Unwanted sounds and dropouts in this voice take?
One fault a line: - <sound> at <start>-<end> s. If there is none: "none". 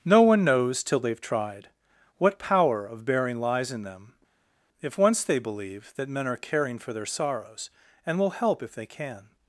none